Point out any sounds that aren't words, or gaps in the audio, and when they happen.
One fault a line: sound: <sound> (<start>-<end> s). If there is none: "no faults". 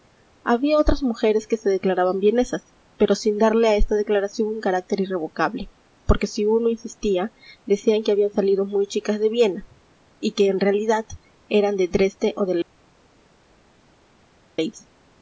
no faults